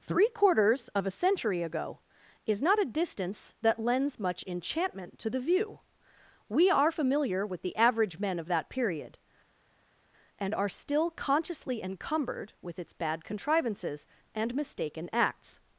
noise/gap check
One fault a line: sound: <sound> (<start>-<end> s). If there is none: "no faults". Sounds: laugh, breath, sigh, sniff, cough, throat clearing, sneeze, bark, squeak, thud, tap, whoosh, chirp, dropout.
no faults